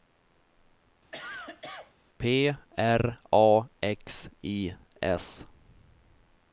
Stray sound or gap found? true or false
true